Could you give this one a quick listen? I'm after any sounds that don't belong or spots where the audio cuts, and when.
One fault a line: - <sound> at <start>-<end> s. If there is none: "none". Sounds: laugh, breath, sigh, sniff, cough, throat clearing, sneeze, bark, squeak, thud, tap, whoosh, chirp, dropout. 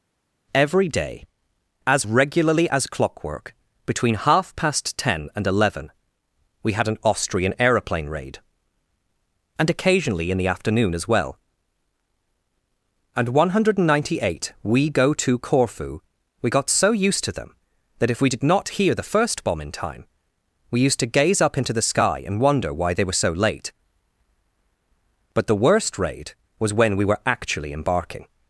none